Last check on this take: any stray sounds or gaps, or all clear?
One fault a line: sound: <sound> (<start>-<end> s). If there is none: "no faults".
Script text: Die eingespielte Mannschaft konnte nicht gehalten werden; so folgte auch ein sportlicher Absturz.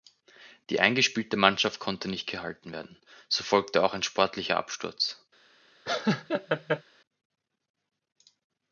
sound: laugh (5.9-6.8 s)